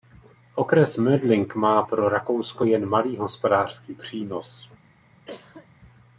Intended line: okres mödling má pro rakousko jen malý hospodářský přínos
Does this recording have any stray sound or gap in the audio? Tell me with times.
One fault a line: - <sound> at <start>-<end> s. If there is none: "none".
- cough at 5.3-5.7 s